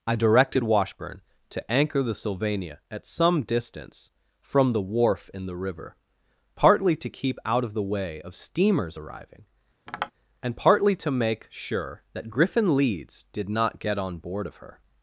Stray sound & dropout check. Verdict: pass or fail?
fail